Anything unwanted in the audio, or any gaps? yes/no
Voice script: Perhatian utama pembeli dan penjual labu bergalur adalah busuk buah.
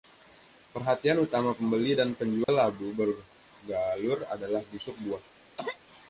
yes